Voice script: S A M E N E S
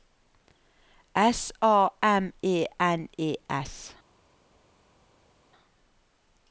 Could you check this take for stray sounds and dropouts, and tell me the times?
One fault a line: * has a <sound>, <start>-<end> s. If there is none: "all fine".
all fine